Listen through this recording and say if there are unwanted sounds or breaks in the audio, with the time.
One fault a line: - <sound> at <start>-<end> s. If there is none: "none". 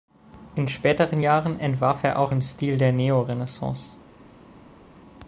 none